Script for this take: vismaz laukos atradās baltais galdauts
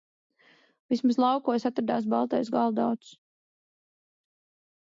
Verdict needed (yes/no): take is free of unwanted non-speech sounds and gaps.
yes